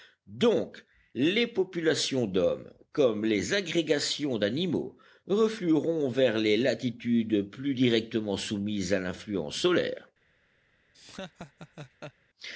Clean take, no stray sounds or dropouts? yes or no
no